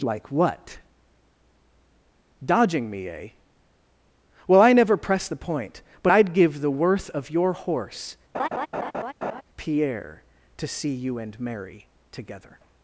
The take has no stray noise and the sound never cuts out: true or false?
false